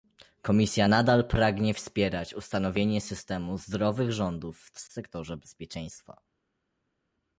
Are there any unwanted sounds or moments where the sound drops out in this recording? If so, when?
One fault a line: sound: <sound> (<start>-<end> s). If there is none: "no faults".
no faults